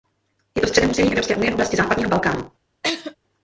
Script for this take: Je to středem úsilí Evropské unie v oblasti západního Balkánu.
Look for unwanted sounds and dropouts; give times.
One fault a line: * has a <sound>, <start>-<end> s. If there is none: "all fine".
* has a laugh, 2.8-3.2 s